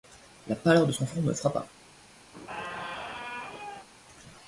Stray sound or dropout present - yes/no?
yes